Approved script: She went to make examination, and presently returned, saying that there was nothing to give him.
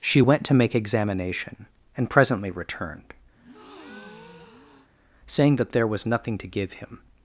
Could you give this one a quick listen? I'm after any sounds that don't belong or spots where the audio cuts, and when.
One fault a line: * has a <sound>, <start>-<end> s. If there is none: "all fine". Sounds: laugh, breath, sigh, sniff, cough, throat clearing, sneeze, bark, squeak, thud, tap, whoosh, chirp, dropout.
* has a breath, 3.4-4.9 s